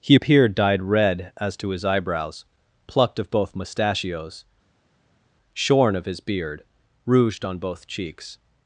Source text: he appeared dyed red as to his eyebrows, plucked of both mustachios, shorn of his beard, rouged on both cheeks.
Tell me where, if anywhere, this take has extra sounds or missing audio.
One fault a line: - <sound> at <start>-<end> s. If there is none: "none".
none